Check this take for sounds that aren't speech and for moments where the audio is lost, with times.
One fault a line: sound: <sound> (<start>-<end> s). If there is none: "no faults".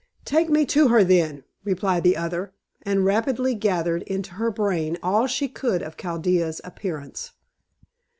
no faults